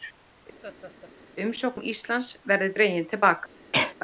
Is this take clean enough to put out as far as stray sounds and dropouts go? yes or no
no